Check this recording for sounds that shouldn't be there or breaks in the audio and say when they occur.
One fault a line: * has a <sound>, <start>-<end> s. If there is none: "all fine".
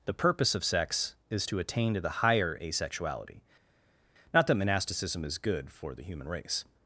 all fine